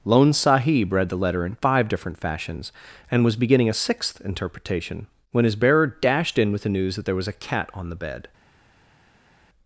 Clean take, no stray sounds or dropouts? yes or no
yes